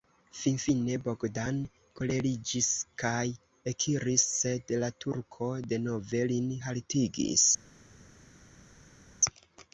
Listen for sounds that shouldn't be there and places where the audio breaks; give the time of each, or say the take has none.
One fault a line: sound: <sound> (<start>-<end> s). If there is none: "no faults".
no faults